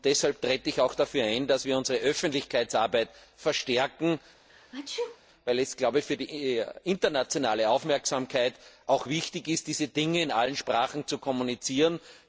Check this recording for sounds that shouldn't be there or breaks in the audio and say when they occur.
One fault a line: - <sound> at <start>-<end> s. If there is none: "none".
- sneeze at 4.5-5.2 s